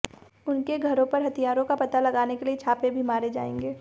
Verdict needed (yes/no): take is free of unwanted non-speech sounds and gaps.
yes